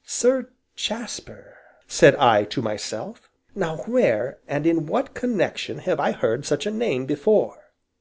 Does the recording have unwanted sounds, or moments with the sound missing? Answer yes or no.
no